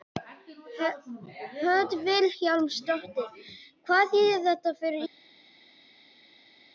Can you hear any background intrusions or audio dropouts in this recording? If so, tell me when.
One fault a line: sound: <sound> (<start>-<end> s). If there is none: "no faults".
no faults